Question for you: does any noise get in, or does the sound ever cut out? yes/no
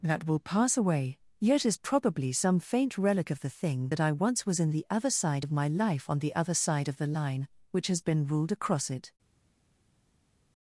no